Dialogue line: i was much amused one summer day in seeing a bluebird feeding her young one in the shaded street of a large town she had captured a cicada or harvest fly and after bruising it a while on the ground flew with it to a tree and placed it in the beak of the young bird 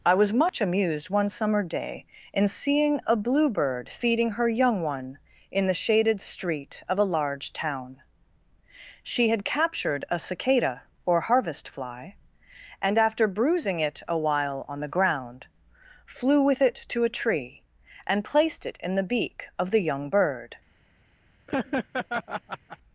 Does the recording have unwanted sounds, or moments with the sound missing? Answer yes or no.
yes